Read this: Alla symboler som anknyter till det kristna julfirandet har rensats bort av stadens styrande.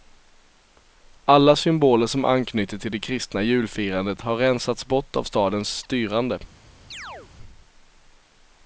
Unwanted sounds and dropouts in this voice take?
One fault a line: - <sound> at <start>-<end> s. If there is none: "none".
- chirp at 6.9-7.3 s